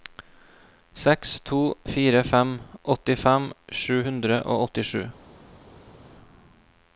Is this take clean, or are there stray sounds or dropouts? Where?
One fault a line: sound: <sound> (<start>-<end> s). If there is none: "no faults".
no faults